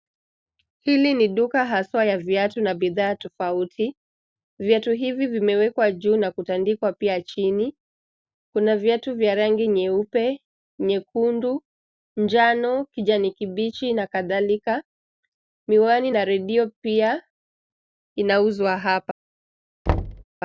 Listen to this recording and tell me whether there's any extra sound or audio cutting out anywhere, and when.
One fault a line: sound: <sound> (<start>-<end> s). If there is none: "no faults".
sound: thud (19.9-20.2 s)